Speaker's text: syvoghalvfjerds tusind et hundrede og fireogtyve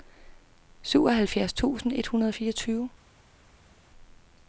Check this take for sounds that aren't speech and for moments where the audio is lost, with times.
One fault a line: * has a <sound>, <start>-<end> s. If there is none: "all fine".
all fine